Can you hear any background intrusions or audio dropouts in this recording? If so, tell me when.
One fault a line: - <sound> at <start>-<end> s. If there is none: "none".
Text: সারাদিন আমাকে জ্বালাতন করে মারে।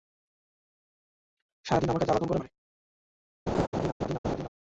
- laugh at 3.5-4.5 s